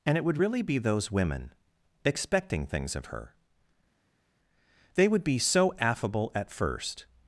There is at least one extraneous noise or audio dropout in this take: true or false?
false